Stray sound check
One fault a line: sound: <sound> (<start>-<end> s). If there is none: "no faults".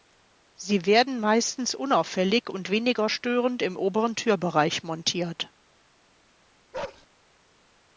sound: bark (6.7-7.1 s)